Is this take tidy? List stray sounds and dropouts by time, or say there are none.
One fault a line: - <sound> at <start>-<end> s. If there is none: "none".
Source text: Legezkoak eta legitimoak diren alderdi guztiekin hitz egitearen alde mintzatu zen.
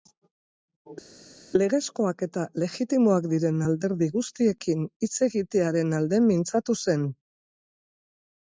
none